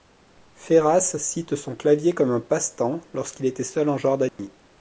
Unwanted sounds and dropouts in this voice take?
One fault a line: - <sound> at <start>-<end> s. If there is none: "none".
- dropout at 4.3-4.4 s